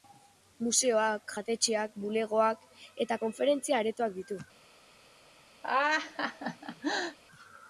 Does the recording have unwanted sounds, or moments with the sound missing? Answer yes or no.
yes